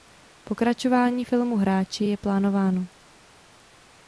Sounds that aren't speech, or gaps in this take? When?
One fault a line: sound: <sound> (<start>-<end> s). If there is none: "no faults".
no faults